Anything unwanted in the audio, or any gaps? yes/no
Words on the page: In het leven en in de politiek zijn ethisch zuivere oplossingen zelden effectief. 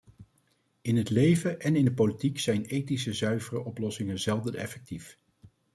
no